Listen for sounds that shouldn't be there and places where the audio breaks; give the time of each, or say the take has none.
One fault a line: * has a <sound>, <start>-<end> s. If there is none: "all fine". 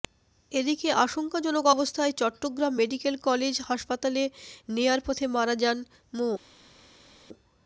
all fine